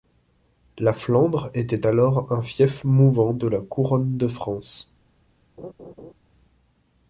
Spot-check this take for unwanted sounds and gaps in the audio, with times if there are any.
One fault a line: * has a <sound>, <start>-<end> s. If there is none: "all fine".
* has a laugh, 5.6-6.1 s